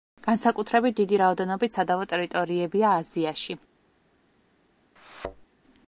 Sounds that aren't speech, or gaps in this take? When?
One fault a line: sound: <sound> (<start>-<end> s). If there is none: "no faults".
sound: thud (5.0-5.5 s)